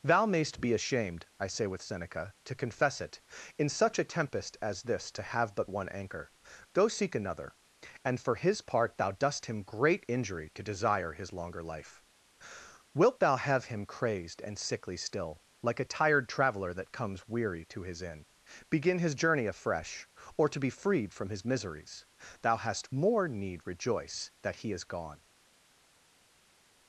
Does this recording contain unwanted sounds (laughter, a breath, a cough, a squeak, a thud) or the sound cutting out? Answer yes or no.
no